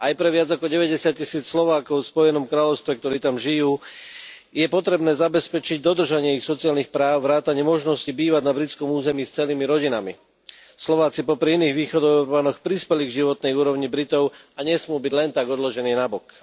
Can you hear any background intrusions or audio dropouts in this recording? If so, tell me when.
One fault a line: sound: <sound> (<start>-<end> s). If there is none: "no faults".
no faults